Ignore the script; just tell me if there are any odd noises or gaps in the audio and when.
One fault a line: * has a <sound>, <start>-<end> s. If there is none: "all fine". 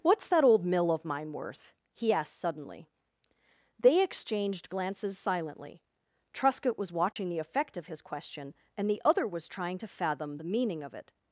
* has a dropout, 7.1-7.2 s